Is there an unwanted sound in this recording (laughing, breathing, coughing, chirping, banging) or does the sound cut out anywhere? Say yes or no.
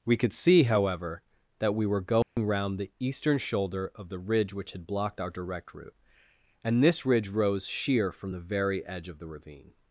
yes